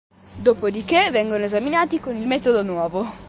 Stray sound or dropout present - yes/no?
no